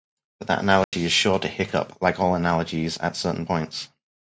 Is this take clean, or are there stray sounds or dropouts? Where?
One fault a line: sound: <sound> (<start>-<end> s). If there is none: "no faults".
sound: dropout (0.8-0.9 s)